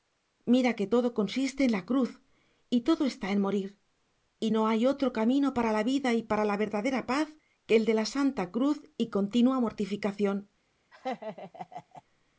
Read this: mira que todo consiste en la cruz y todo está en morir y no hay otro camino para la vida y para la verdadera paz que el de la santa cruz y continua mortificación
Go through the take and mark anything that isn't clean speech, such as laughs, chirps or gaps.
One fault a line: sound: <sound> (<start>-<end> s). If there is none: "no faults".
sound: laugh (10.9-12.0 s)